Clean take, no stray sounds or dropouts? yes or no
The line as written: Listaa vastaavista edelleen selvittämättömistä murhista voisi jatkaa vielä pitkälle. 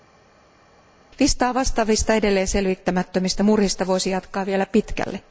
yes